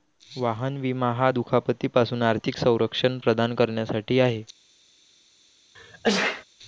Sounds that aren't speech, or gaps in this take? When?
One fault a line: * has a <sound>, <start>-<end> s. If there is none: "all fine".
* has a sneeze, 5.7-6.4 s